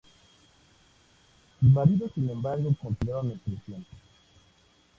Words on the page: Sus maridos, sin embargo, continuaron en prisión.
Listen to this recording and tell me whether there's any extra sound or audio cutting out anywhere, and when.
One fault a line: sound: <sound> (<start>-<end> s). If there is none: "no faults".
no faults